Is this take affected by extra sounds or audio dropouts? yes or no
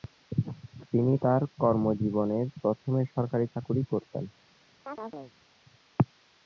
yes